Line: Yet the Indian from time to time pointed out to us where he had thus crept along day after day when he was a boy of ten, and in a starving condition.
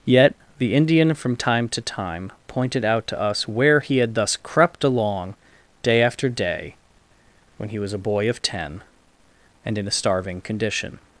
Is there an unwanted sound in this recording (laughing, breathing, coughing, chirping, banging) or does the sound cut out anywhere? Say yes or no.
no